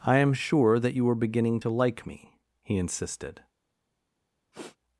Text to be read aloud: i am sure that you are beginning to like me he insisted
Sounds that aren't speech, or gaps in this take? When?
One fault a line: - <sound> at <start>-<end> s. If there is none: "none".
- sniff at 4.5-4.8 s